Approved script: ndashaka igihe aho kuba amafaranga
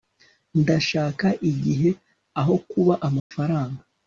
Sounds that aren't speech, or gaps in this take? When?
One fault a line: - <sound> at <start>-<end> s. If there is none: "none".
- dropout at 3.2-3.3 s